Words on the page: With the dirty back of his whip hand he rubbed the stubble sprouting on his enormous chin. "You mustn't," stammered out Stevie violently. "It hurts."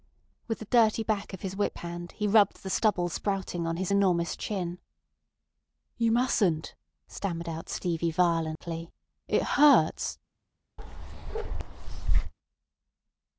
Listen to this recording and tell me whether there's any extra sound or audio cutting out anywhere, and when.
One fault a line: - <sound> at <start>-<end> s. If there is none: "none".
- dropout at 8.6-8.6 s
- bark at 10.8-12.3 s